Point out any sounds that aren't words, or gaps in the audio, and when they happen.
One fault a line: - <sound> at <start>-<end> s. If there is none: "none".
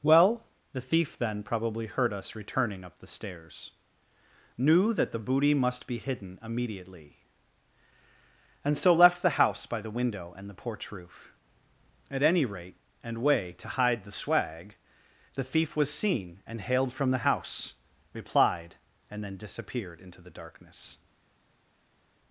none